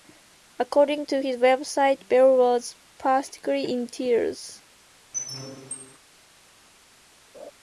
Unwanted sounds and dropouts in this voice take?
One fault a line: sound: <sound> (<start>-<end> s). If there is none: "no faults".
sound: squeak (5.1-6.0 s)
sound: laugh (7.3-7.5 s)